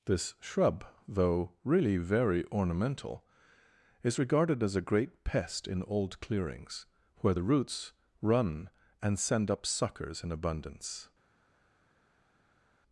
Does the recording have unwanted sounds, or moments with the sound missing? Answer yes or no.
no